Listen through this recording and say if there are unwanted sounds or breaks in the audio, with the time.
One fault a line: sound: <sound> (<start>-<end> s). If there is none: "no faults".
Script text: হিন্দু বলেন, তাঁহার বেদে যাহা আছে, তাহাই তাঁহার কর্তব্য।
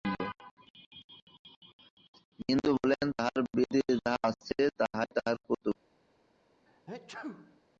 sound: sneeze (6.7-7.6 s)